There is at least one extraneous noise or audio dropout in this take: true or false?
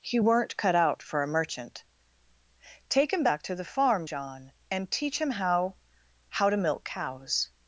false